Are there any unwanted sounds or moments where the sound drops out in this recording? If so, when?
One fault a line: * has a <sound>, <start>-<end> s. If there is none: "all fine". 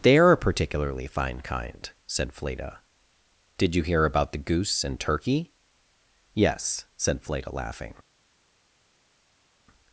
all fine